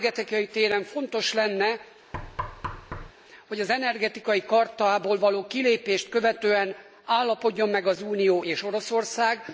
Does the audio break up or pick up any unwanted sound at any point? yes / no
yes